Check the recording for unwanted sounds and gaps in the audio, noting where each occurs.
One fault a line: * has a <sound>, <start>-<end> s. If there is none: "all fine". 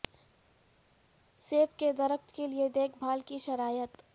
all fine